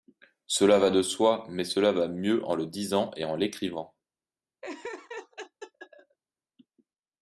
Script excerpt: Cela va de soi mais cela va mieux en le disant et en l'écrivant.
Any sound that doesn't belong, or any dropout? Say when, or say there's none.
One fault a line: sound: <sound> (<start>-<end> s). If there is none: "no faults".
sound: laugh (4.6-6.2 s)